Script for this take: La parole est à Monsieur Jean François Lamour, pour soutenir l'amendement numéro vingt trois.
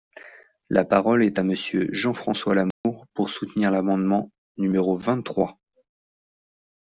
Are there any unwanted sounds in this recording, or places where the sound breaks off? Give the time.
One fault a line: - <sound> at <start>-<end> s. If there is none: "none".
- dropout at 2.7-2.8 s